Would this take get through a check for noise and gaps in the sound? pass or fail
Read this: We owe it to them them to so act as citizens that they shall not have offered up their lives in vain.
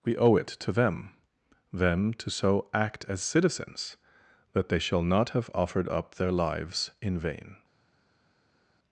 pass